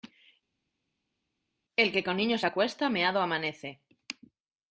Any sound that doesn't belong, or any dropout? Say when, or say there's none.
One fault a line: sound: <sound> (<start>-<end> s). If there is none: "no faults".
no faults